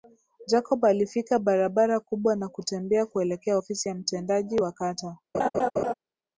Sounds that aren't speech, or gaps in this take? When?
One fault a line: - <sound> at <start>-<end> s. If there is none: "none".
- laugh at 5.3-5.9 s